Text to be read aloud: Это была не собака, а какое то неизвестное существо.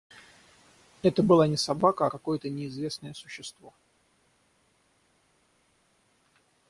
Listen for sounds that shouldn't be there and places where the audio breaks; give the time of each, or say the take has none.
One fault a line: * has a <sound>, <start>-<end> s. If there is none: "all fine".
all fine